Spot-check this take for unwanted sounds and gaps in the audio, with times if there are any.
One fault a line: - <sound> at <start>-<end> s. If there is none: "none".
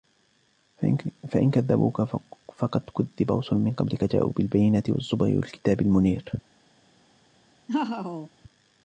- laugh at 7.7-8.3 s